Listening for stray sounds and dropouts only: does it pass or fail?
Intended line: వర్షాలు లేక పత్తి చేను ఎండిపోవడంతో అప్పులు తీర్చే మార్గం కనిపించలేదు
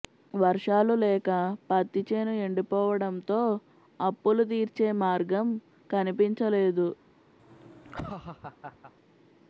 fail